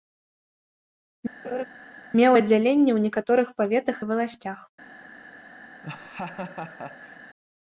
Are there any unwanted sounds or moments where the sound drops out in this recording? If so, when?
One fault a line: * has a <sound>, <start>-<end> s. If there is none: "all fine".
* has a laugh, 1.4-1.7 s
* has a laugh, 5.8-7.2 s